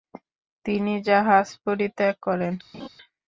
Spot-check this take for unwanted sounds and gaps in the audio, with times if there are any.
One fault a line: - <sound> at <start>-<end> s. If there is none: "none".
- laugh at 2.7-2.9 s